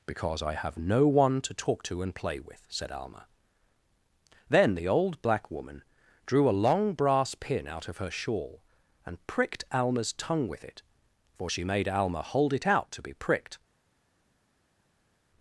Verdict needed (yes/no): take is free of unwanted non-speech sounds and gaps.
yes